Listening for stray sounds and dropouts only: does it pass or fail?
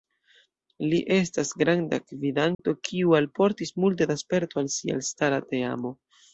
fail